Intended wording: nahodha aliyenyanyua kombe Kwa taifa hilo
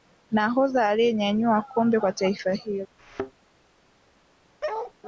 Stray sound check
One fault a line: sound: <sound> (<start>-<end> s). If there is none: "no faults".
sound: thud (3.0-3.3 s)
sound: bark (4.6-4.9 s)